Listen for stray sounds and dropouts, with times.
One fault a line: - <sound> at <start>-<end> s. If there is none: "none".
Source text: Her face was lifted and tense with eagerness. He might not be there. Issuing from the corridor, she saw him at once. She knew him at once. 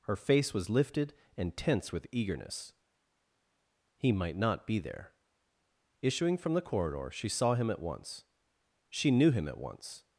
none